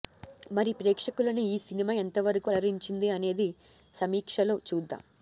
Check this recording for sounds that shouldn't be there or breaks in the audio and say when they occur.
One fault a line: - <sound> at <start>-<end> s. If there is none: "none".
none